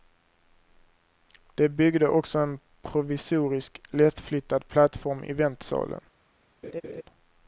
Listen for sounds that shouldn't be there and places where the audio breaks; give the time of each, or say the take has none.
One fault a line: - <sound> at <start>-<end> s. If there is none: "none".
- laugh at 6.6-7.0 s